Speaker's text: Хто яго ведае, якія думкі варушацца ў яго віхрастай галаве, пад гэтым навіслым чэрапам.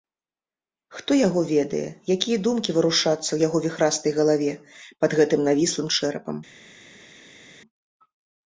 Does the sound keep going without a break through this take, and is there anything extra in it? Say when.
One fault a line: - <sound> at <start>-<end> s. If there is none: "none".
none